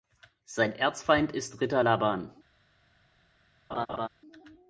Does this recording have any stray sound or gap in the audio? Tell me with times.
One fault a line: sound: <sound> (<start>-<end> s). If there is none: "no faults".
sound: laugh (3.7-4.1 s)